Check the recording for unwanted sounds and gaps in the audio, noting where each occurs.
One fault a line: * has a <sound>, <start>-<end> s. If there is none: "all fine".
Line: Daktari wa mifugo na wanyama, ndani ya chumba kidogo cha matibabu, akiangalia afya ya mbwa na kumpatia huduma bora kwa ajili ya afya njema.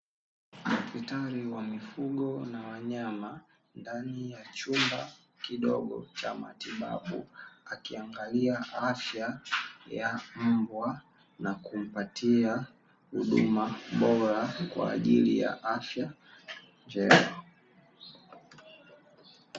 all fine